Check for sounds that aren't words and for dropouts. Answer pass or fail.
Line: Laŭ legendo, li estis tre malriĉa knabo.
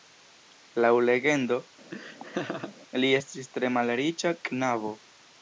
fail